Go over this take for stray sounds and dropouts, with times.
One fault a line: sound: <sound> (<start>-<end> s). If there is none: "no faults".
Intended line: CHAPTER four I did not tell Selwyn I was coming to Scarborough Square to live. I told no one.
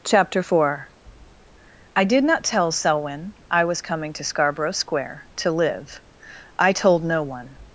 no faults